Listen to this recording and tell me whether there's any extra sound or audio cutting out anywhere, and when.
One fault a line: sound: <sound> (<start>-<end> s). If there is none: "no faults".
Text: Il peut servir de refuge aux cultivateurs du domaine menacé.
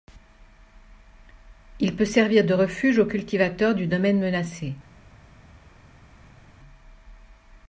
no faults